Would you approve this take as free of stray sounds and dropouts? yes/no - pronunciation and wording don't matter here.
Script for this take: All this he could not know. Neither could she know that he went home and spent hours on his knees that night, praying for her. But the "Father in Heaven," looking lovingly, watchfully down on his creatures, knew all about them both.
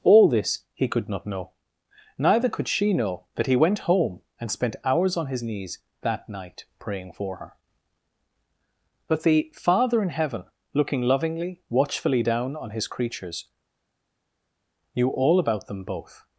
yes